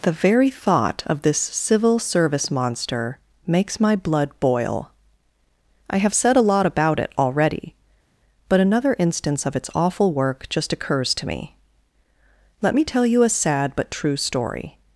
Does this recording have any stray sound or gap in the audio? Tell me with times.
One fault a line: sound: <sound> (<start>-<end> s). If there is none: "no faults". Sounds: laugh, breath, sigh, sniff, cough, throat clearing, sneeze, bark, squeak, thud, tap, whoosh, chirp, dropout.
no faults